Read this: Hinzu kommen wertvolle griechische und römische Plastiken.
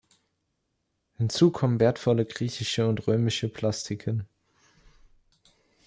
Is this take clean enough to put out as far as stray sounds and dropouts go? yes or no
yes